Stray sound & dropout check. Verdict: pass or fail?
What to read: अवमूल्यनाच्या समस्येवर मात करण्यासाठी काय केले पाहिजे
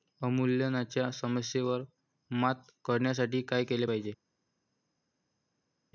pass